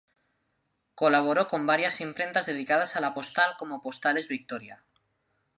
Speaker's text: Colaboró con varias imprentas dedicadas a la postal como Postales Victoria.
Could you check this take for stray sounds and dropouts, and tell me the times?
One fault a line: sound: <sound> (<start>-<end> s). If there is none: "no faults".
no faults